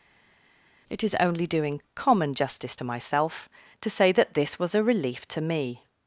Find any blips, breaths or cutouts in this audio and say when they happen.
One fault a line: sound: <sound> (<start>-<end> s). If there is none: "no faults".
no faults